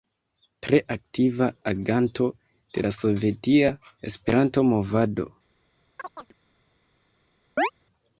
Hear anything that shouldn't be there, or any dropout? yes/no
yes